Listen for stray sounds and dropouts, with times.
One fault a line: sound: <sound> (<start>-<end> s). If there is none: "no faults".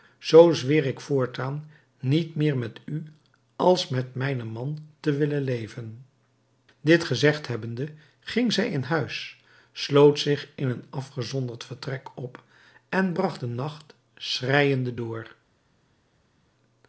no faults